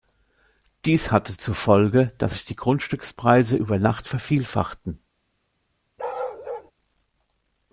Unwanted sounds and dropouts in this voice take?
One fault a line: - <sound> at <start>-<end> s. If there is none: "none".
- bark at 6.0-6.7 s